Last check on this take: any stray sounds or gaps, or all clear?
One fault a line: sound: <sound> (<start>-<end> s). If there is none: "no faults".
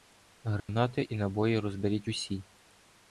sound: dropout (0.6-0.7 s)